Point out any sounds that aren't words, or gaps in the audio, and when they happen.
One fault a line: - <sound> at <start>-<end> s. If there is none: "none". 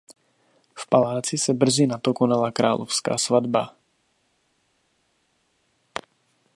none